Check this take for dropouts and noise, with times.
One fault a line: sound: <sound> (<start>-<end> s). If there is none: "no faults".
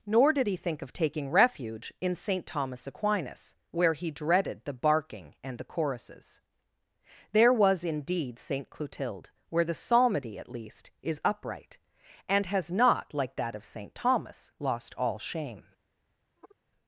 sound: sigh (16.4-16.6 s)